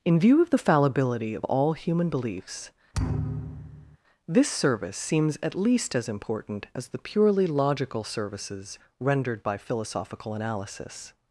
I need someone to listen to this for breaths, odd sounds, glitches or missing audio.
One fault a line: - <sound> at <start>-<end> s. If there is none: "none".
- thud at 2.9-4.0 s